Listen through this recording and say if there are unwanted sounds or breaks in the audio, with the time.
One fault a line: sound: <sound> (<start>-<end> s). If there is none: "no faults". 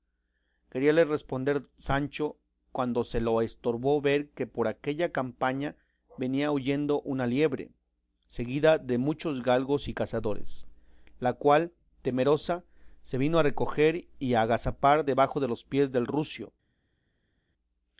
no faults